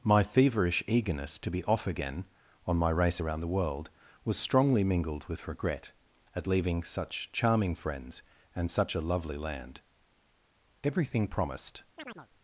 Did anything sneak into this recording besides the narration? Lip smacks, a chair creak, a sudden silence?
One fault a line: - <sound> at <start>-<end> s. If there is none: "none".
- chirp at 12.0-12.3 s